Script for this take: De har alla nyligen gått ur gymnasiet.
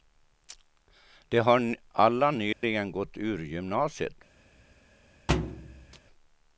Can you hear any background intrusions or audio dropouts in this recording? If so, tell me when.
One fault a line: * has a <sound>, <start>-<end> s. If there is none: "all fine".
* has a dropout, 2.5-2.6 s
* has a thud, 5.3-6.0 s